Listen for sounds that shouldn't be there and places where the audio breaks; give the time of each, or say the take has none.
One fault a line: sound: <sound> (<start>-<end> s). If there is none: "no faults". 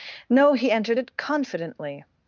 no faults